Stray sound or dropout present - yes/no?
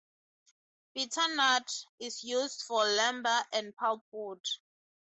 no